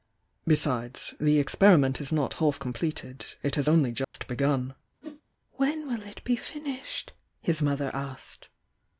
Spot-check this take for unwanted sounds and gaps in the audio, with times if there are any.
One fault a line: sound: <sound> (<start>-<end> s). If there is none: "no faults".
sound: dropout (4.0-4.1 s)
sound: whoosh (5.0-5.2 s)